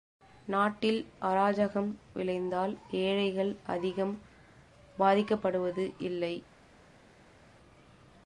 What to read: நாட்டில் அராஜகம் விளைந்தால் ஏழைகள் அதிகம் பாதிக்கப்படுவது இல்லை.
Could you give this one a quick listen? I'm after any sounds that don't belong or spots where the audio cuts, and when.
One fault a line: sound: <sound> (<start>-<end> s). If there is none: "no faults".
no faults